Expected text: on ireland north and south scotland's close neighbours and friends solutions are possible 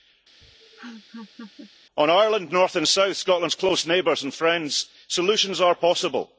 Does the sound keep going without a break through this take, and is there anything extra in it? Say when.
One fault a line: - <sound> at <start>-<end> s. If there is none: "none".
- laugh at 0.4-1.7 s